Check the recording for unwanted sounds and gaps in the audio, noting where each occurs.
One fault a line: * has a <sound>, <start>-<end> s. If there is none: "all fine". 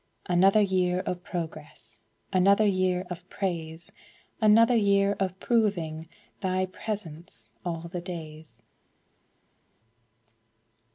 all fine